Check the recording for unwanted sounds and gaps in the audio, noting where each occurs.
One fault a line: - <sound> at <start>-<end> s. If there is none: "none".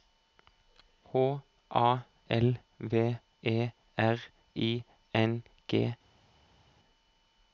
none